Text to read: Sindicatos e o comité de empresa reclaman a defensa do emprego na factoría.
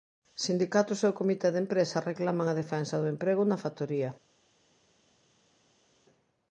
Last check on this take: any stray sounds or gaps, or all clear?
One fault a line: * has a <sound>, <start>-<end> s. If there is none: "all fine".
all fine